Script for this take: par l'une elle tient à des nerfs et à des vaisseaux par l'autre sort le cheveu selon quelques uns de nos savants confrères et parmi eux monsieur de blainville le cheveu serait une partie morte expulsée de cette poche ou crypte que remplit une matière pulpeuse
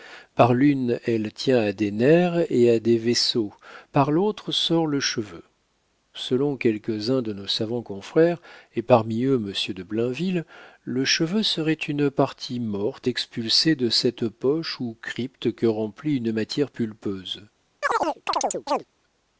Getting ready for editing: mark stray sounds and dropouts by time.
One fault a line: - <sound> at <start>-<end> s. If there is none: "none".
- chirp at 17.8-18.8 s